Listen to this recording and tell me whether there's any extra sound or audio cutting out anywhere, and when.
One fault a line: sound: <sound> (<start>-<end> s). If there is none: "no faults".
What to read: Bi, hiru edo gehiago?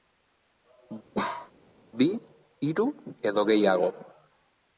sound: bark (1.1-1.5 s)